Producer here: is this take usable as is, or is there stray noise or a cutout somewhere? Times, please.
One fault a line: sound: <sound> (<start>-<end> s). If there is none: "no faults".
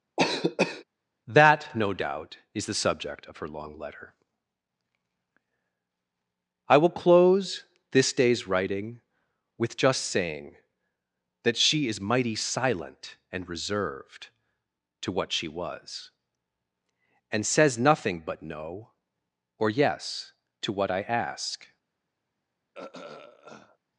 sound: cough (0.2-0.8 s)
sound: throat clearing (22.7-23.8 s)